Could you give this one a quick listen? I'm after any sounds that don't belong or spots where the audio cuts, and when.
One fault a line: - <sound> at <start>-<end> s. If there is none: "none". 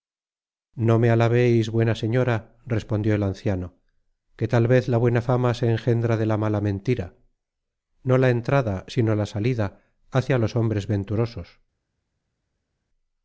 none